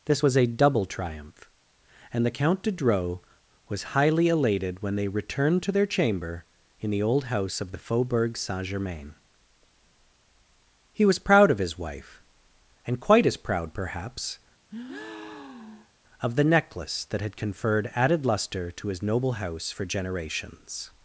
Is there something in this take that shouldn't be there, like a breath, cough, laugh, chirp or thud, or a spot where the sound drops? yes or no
yes